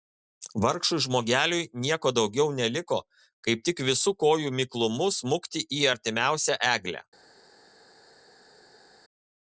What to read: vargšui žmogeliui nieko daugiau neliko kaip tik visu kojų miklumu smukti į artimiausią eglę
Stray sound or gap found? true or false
false